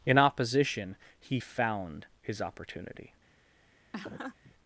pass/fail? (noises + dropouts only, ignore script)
fail